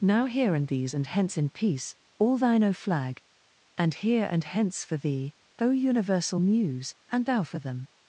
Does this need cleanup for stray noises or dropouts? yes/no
no